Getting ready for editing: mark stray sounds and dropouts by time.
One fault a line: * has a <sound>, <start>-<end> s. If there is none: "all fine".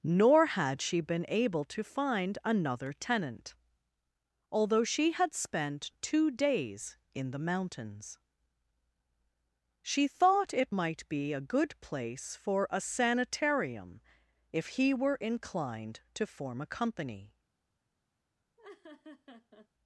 * has a laugh, 18.6-19.7 s